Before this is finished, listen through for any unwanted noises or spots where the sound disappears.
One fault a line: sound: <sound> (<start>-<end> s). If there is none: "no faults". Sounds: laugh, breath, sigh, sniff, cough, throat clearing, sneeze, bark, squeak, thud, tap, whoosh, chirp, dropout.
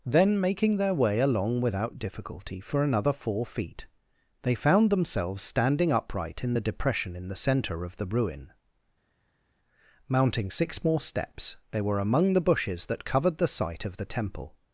no faults